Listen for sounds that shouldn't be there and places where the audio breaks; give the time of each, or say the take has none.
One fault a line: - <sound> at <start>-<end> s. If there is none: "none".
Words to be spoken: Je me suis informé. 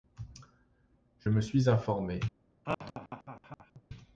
- laugh at 2.6-3.8 s